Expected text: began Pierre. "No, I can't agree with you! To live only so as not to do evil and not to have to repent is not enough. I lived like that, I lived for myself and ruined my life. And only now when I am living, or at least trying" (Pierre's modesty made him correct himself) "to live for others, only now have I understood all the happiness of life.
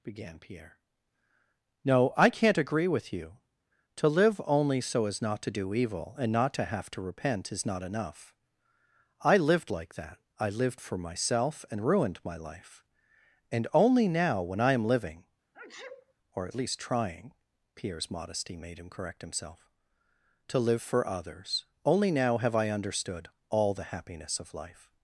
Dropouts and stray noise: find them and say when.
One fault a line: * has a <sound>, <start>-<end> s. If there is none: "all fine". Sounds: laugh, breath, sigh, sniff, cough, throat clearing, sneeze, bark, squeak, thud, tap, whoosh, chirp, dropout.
* has a sneeze, 15.5-16.1 s